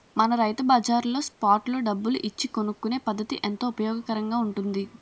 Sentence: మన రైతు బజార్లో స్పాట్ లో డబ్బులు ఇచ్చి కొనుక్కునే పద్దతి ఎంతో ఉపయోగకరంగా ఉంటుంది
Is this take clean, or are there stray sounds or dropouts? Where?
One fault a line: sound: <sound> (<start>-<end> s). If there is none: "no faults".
no faults